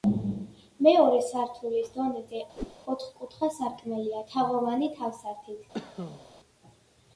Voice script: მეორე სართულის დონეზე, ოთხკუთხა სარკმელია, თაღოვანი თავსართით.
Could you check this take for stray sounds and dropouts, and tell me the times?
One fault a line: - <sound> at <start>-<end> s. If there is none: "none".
- whoosh at 2.6-2.8 s
- cough at 5.7-6.3 s